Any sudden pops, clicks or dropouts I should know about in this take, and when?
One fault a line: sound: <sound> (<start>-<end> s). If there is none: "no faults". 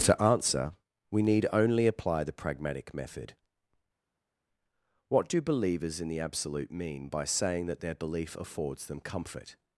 no faults